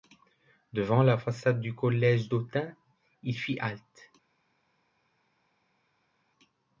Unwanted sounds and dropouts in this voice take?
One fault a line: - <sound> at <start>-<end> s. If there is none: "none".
none